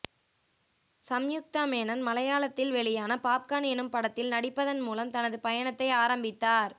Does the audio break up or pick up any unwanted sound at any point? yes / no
no